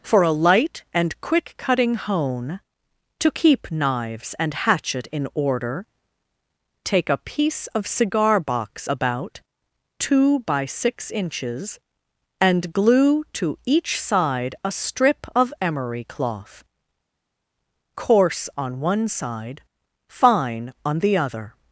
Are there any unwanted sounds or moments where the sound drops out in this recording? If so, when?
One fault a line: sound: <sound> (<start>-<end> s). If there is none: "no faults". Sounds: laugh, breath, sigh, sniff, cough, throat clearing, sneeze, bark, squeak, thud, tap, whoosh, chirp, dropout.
no faults